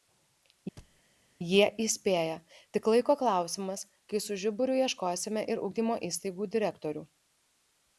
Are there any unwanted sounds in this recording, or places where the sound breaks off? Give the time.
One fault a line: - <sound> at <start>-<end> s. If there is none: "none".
- thud at 0.8-1.0 s